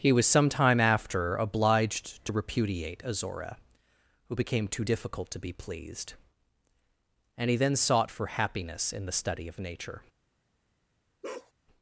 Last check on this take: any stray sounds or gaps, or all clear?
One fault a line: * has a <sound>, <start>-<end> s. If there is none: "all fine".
* has a bark, 11.2-11.5 s